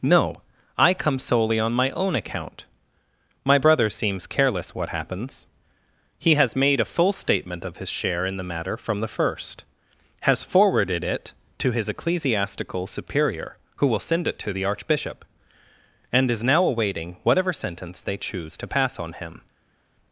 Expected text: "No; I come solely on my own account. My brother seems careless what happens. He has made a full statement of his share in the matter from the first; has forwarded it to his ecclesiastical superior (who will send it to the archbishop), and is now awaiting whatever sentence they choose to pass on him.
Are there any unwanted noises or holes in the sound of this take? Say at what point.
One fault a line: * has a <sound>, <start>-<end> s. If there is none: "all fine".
all fine